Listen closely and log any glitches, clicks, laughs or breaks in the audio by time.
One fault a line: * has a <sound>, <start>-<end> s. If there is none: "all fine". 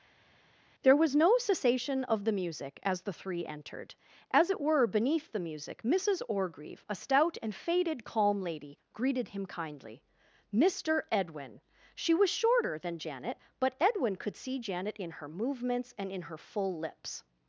all fine